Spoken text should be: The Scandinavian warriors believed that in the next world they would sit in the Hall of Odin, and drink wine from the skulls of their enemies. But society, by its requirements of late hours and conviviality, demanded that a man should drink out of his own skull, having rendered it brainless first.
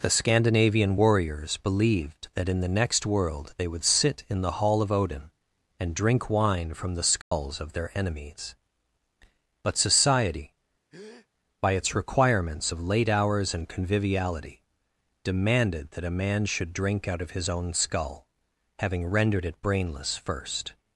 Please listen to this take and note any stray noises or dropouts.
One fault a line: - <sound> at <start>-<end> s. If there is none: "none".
- dropout at 7.2-7.3 s
- breath at 10.9-11.3 s